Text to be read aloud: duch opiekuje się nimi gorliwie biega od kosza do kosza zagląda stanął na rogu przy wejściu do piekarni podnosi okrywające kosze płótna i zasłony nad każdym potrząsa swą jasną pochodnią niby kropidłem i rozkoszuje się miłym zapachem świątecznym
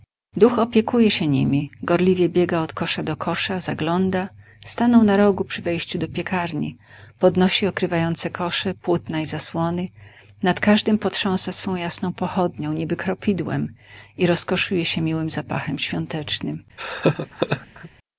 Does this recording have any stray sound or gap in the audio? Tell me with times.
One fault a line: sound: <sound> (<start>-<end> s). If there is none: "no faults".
sound: laugh (16.8-17.9 s)